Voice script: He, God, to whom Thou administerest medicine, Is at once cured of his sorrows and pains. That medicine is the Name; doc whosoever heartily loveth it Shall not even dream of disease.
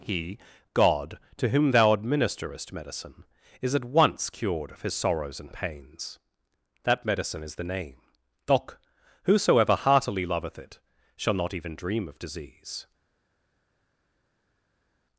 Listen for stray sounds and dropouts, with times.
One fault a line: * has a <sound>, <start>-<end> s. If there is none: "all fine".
all fine